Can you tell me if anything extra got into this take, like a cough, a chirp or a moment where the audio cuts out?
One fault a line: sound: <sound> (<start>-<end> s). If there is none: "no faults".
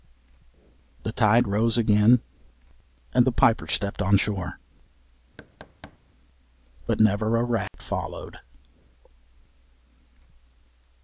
sound: thud (5.4-6.0 s)
sound: dropout (7.7-7.7 s)